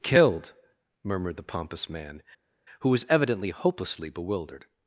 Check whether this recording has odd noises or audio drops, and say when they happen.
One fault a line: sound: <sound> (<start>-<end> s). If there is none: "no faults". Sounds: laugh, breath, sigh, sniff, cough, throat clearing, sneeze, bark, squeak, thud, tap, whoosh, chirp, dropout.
no faults